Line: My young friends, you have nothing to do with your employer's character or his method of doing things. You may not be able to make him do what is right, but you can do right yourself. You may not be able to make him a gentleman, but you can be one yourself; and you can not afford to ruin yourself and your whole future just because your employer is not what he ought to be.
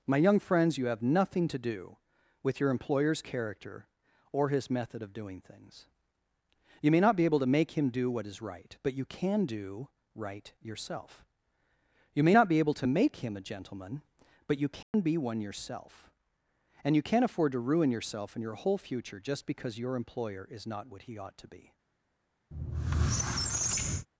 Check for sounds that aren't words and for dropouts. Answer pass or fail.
fail